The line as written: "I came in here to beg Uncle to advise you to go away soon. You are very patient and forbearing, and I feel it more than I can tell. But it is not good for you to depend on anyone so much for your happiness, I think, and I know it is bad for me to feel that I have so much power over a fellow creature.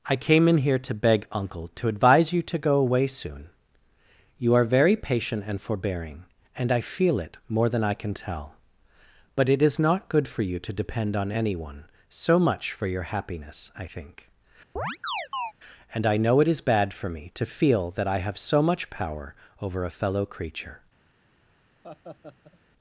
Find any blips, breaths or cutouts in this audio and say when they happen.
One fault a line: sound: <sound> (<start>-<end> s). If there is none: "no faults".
sound: chirp (14.8-15.5 s)
sound: laugh (21.8-22.6 s)